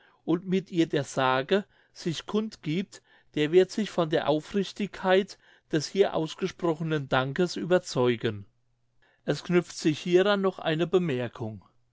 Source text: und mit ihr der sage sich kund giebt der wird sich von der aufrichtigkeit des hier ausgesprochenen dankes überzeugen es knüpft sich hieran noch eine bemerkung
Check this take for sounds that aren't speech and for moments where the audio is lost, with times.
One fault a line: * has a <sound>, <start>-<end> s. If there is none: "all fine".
all fine